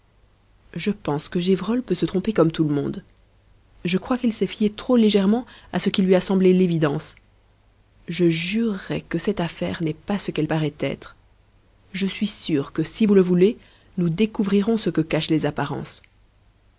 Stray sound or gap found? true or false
false